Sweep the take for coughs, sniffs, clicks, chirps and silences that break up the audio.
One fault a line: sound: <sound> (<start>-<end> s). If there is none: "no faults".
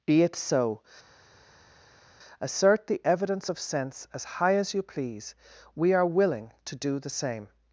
no faults